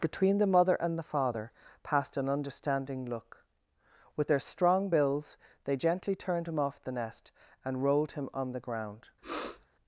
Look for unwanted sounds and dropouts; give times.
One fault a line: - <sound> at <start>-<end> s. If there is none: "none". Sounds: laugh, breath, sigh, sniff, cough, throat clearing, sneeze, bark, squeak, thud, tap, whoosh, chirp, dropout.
- sniff at 9.2-9.7 s